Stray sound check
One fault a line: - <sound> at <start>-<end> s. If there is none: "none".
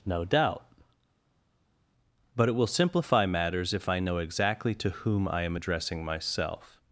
none